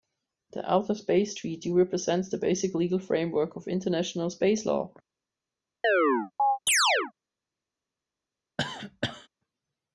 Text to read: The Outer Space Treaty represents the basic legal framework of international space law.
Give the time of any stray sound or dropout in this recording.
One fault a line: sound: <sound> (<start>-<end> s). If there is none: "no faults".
sound: chirp (5.8-7.1 s)
sound: cough (8.6-9.3 s)